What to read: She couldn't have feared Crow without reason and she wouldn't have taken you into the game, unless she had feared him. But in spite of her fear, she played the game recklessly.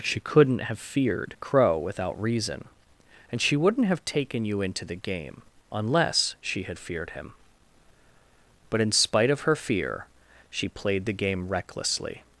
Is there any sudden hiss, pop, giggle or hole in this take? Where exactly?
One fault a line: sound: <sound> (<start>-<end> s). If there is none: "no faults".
no faults